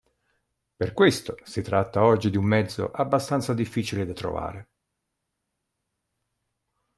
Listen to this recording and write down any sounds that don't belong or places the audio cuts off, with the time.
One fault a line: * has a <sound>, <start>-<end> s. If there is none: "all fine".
all fine